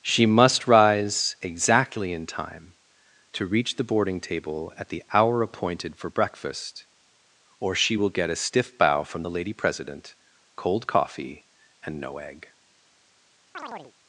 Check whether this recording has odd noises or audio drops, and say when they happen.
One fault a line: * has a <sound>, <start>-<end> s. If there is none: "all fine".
* has a chirp, 13.5-13.9 s